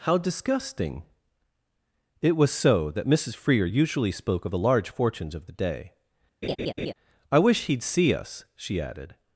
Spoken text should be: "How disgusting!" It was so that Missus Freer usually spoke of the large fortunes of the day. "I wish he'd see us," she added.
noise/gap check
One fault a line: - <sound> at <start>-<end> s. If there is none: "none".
- laugh at 6.4-6.9 s